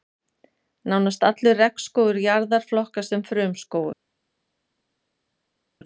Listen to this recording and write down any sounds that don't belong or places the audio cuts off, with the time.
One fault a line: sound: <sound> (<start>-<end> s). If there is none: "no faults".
no faults